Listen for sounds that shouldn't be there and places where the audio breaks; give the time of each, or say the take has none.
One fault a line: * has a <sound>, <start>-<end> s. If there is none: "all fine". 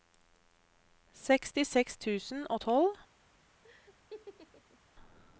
* has a laugh, 3.6-4.8 s